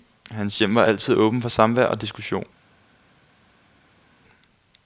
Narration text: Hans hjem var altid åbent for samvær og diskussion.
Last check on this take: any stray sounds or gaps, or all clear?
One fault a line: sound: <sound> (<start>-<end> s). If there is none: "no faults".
no faults